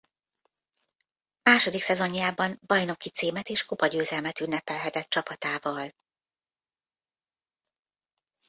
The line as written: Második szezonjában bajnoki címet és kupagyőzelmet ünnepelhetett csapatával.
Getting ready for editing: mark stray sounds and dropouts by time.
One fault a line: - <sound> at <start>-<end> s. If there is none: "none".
none